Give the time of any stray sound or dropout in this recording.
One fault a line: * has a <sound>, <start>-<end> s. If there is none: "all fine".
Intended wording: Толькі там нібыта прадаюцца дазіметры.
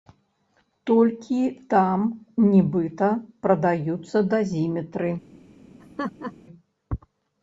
* has a laugh, 5.8-6.3 s